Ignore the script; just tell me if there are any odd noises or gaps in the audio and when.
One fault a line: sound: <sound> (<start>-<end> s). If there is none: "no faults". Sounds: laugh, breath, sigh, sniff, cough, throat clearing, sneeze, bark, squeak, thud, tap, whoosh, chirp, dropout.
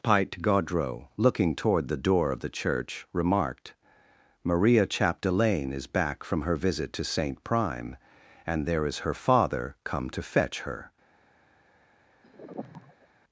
sound: sigh (12.2-13.1 s)